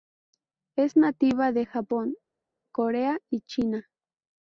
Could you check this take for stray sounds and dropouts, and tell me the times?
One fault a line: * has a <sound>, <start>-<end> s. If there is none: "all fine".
all fine